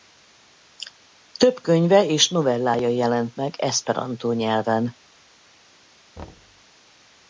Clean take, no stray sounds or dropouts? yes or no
no